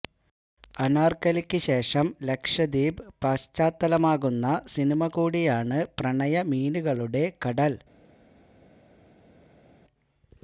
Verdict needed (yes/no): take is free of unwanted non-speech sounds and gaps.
yes